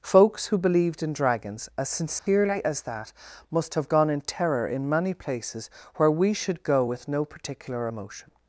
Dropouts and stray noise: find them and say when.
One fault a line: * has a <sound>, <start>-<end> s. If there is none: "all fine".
* has a dropout, 2.2-2.3 s